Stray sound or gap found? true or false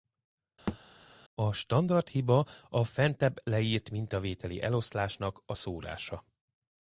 true